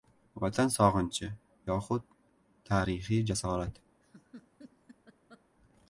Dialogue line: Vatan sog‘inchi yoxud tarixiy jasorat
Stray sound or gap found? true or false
true